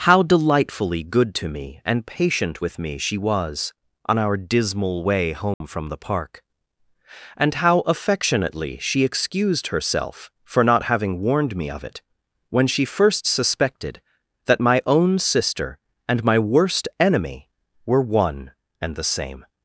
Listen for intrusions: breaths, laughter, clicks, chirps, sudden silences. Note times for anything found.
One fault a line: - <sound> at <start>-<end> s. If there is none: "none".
- dropout at 5.5-5.6 s